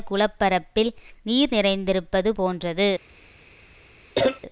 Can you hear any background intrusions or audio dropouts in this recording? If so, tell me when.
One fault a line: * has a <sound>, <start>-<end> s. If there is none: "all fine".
* has a cough, 4.1-4.4 s